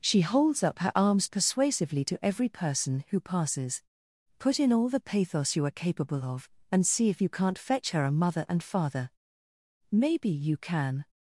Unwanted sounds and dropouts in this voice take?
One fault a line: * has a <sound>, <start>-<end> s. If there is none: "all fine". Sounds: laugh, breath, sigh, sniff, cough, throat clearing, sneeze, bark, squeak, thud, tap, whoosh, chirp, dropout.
all fine